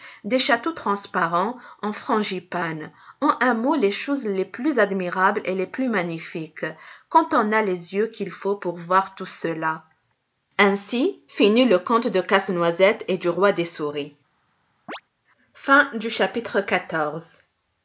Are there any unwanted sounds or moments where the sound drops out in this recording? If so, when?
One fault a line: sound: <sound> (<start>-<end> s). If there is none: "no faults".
sound: chirp (14.9-15.0 s)